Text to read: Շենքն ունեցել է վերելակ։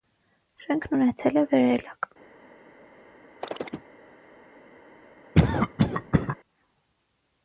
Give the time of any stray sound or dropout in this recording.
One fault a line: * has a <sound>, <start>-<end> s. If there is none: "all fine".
* has a chirp, 3.4-3.9 s
* has a cough, 5.3-6.4 s